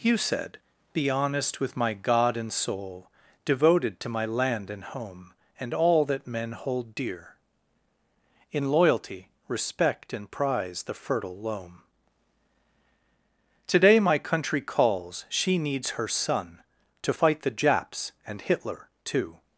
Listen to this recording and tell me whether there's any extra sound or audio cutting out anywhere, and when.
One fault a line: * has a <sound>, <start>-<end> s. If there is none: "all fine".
all fine